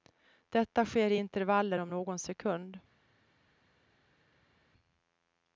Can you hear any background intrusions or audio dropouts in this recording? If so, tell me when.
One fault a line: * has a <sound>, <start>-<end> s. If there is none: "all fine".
all fine